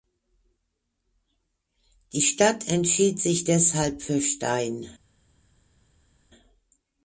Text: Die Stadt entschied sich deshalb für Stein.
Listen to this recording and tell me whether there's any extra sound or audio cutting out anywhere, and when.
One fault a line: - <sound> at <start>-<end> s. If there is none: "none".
none